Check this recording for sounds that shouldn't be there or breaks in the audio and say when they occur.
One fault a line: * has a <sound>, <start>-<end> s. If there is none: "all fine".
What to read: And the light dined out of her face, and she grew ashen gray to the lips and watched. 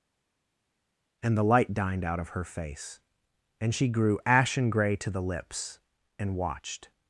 all fine